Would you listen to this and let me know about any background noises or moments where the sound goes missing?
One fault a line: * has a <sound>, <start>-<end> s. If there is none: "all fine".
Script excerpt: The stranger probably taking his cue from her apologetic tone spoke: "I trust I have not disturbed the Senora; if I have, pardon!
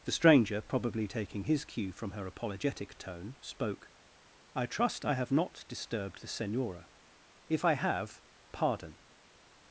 all fine